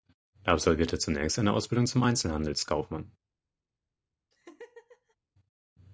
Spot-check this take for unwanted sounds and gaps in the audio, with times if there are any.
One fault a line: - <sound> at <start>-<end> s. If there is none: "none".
- laugh at 4.3-5.2 s